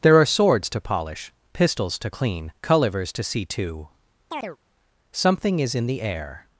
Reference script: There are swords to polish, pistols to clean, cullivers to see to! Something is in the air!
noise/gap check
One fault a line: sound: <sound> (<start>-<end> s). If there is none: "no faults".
sound: chirp (4.3-4.6 s)